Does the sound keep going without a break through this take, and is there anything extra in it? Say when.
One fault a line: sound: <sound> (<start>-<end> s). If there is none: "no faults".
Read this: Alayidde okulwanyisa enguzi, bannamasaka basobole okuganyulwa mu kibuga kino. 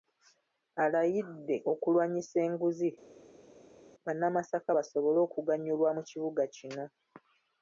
no faults